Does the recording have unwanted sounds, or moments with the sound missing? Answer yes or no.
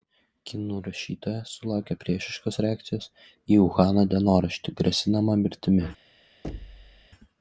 yes